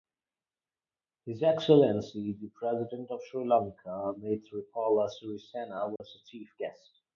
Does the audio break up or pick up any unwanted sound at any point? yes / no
yes